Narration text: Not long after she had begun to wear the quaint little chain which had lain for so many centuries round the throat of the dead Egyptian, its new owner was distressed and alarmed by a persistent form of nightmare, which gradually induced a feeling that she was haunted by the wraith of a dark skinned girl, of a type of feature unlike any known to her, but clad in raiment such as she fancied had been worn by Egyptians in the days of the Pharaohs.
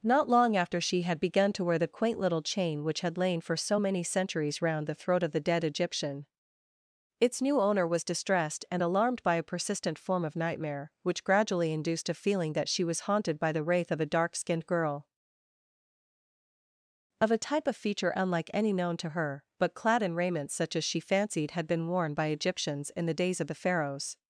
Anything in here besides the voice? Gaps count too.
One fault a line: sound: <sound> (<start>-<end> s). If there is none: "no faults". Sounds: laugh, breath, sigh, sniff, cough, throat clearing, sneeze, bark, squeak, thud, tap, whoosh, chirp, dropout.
no faults